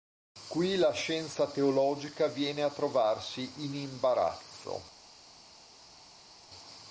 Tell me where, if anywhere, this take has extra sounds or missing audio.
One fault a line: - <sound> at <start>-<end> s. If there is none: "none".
none